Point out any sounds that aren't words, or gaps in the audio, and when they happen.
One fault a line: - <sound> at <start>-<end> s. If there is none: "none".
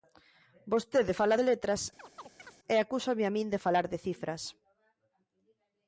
- chirp at 2.0-2.6 s